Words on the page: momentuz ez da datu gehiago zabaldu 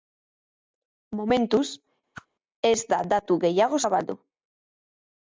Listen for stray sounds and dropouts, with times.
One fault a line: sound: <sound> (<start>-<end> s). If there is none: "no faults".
sound: whoosh (2.1-2.3 s)